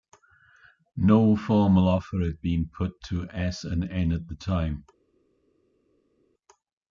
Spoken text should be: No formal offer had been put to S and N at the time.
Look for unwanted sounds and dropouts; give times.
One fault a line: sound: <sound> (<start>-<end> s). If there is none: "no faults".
no faults